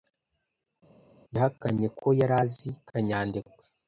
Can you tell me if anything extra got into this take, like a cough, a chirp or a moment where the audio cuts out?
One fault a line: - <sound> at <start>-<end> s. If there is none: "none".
none